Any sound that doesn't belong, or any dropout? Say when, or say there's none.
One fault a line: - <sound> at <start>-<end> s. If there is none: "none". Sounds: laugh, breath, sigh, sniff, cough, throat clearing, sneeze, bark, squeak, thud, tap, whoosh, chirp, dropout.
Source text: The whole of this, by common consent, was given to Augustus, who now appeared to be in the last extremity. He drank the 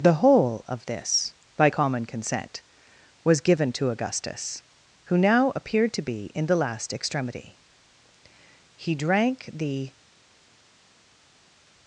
none